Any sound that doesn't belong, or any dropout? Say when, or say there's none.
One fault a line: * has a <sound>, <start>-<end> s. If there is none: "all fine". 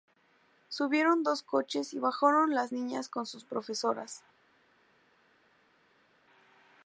all fine